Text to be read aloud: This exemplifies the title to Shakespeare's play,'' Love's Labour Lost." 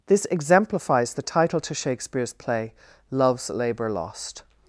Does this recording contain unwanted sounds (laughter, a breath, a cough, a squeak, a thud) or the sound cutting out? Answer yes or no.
no